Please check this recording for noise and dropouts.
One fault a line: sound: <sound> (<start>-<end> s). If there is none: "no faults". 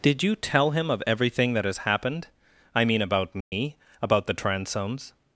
sound: dropout (3.4-3.5 s)